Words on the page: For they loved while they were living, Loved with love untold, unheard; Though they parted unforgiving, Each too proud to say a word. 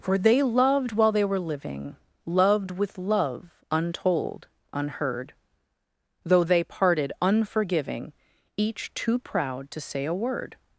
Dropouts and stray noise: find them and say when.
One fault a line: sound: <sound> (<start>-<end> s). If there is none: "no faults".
no faults